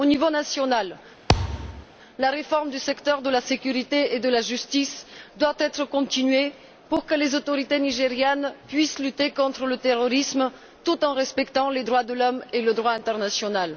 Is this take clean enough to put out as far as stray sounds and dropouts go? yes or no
no